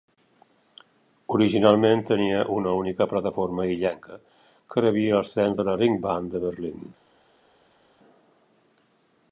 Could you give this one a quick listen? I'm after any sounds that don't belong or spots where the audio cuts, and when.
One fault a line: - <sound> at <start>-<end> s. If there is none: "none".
none